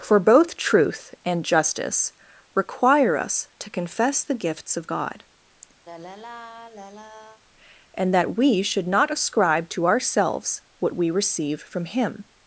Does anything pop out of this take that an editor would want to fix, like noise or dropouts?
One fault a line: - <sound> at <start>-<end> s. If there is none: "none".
- sigh at 5.9-7.4 s